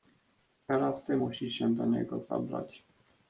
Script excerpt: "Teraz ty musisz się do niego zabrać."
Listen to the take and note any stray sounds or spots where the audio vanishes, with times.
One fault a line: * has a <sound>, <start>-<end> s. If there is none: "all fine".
all fine